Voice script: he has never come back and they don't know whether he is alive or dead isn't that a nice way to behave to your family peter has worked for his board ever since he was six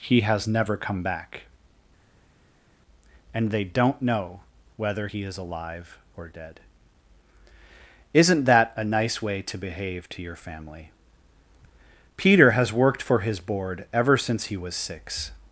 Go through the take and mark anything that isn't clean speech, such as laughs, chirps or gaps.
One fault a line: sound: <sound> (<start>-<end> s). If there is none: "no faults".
no faults